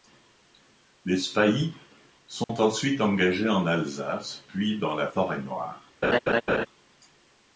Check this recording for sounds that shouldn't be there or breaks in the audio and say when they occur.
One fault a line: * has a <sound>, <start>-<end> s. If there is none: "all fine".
* has a dropout, 2.4-2.5 s
* has a laugh, 6.0-6.7 s